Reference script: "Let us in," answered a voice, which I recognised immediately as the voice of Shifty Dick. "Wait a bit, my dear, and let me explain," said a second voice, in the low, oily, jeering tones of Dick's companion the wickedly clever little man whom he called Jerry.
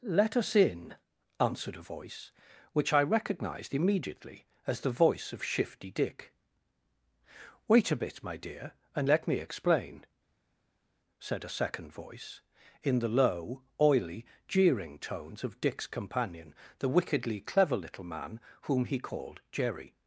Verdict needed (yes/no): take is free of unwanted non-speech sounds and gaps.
yes